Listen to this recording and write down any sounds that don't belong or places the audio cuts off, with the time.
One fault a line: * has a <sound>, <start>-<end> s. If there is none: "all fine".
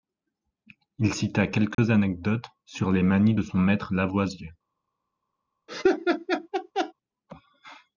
* has a dropout, 1.7-1.8 s
* has a laugh, 5.7-6.9 s